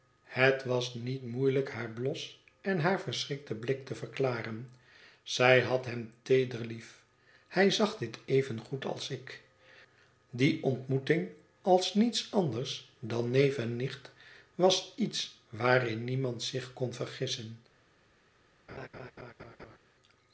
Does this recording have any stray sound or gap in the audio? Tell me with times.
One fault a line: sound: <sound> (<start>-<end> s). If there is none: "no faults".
sound: laugh (18.7-19.8 s)